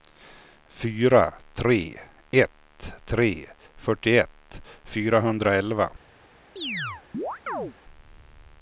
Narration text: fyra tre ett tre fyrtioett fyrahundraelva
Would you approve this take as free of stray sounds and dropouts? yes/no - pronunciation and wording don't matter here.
no